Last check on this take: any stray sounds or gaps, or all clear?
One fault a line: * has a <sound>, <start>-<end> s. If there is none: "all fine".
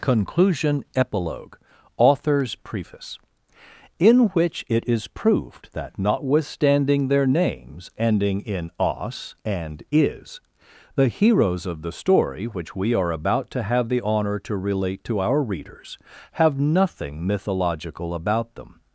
all fine